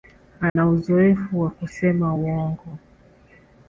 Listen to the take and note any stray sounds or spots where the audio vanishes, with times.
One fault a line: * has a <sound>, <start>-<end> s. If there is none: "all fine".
* has a dropout, 0.5-0.6 s